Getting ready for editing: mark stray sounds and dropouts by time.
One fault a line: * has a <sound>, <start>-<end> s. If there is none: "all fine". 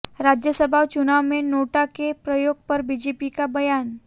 all fine